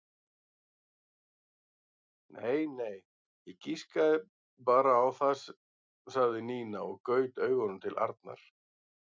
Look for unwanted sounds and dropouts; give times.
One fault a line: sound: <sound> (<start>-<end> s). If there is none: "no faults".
no faults